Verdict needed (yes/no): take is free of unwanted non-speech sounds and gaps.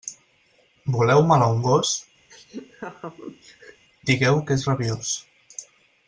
no